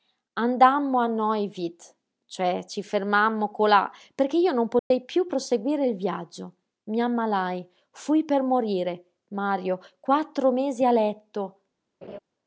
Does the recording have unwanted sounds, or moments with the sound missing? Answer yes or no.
yes